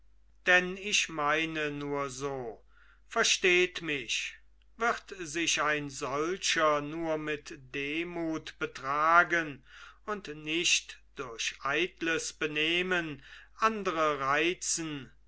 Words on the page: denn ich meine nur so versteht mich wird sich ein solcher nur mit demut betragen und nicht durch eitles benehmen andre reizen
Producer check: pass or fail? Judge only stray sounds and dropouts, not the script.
pass